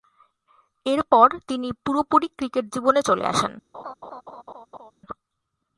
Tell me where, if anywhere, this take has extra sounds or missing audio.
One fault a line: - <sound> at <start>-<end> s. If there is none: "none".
- laugh at 3.7-4.9 s